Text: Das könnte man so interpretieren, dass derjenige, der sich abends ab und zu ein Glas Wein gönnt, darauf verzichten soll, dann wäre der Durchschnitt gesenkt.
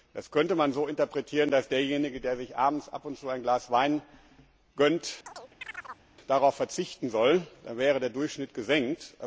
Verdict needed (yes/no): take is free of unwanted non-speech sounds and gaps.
no